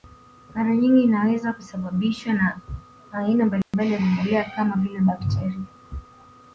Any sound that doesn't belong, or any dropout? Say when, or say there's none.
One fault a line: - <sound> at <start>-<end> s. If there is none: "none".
- dropout at 3.6-3.7 s